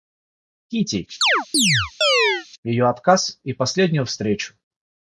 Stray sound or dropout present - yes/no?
yes